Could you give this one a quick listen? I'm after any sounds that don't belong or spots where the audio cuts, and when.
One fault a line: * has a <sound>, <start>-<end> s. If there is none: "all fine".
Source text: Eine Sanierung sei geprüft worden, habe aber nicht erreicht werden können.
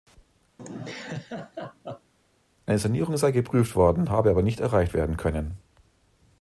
* has a laugh, 0.6-2.1 s